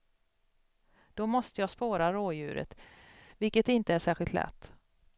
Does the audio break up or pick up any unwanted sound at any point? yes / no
no